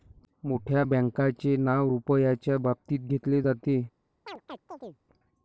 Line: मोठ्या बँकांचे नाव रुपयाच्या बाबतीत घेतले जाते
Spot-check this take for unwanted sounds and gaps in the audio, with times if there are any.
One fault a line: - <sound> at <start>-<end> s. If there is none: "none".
- chirp at 4.3-5.0 s